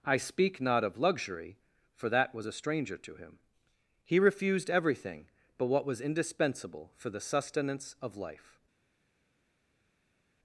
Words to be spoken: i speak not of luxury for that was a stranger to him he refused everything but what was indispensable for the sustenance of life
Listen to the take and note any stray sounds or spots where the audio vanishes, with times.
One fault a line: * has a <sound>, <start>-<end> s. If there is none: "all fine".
all fine